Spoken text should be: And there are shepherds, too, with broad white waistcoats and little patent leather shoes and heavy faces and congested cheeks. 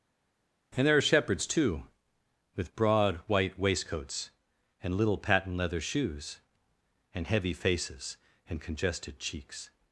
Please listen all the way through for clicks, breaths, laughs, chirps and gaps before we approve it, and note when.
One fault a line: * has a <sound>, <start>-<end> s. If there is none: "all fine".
all fine